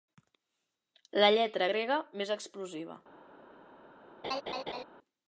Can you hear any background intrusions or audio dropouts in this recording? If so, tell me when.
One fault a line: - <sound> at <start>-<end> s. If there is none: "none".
- laugh at 4.2-4.8 s